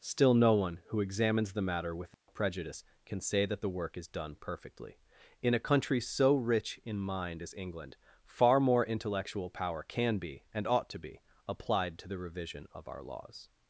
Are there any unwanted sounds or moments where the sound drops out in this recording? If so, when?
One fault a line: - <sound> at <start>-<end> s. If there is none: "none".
- dropout at 2.1-2.3 s